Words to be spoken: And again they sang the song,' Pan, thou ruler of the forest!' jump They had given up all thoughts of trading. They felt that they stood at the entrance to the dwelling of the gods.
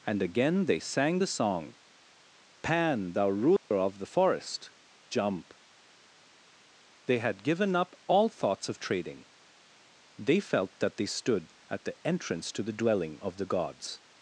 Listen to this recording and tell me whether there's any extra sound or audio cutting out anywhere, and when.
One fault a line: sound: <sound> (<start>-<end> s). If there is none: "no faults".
sound: dropout (3.6-3.7 s)